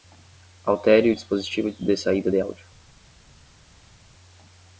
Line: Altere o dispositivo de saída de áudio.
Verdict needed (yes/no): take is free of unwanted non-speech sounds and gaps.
yes